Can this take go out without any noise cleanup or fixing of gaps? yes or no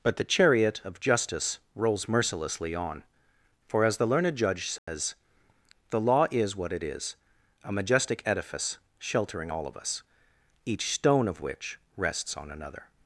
no